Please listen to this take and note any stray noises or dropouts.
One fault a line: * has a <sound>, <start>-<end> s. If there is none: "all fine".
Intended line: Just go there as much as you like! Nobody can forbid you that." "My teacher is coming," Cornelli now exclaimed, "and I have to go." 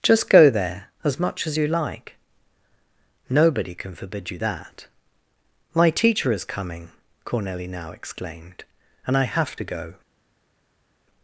all fine